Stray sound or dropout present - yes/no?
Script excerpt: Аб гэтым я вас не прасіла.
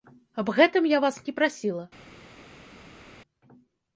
no